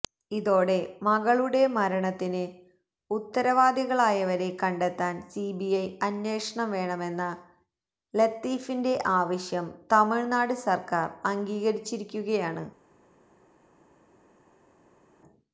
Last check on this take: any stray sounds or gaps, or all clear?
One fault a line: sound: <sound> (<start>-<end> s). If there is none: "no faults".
no faults